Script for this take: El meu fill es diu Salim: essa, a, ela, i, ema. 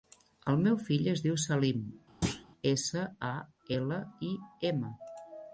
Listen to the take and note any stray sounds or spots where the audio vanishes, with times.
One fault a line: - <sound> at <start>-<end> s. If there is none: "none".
- thud at 2.2-2.5 s